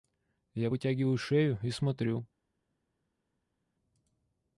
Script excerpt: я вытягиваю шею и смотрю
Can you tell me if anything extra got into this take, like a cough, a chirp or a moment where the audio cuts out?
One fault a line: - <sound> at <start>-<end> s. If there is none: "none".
none